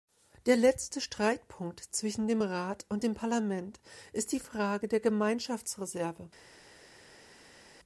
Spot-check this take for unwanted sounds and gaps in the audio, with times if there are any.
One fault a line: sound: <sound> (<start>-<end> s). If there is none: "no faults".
no faults